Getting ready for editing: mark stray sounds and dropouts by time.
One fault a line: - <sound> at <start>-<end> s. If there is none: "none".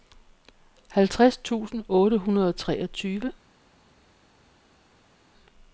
none